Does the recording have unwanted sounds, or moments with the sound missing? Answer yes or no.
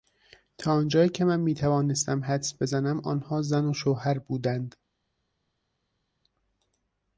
no